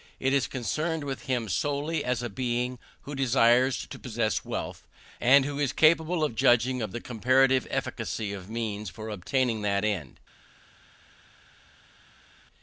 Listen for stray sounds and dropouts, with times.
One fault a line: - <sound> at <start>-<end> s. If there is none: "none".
none